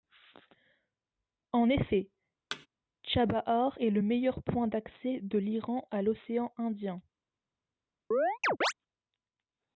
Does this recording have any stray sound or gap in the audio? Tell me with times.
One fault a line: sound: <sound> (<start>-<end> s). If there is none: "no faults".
sound: thud (2.5-2.7 s)
sound: chirp (8.1-8.7 s)